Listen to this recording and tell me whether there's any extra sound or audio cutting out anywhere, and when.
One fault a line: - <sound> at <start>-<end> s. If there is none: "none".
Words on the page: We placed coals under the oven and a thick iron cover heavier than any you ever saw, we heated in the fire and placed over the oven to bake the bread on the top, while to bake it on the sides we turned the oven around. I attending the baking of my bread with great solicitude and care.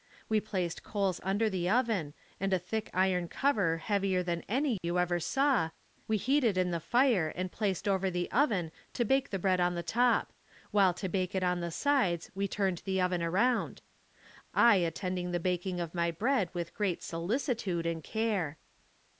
- dropout at 4.8-4.8 s